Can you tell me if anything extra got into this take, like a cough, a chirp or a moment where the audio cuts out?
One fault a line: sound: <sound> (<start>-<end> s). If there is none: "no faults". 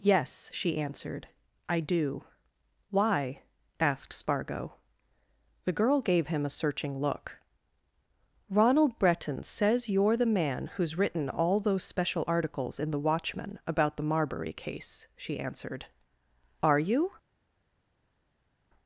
no faults